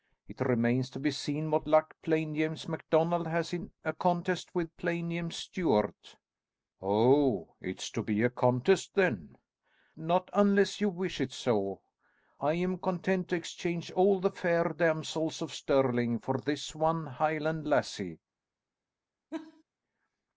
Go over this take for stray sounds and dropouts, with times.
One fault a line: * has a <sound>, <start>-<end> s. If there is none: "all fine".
* has a laugh, 19.3-19.6 s